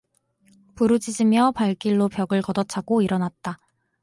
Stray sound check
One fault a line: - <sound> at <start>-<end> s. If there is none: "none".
none